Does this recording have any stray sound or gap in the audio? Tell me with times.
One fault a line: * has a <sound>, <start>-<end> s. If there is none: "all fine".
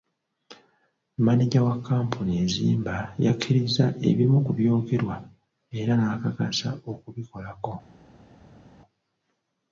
all fine